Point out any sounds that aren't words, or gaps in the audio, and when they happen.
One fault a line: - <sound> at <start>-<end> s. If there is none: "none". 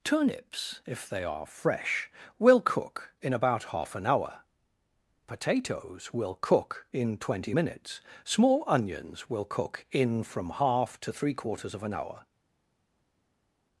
none